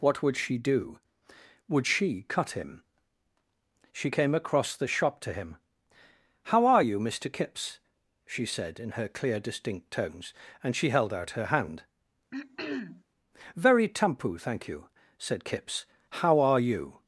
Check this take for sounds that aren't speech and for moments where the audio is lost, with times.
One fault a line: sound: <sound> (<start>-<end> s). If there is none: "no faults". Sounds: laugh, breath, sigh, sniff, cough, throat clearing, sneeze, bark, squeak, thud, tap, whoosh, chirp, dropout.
sound: throat clearing (12.3-13.0 s)